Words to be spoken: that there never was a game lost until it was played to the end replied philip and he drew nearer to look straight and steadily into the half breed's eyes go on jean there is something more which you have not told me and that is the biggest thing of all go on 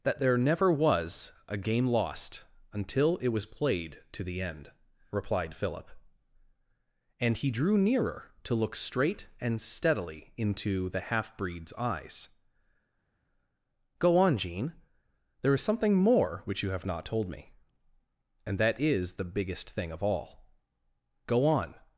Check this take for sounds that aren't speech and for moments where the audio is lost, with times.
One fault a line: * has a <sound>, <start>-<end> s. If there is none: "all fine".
all fine